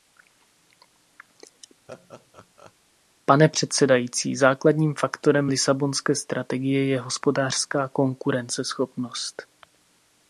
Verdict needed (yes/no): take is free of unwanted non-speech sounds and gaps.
no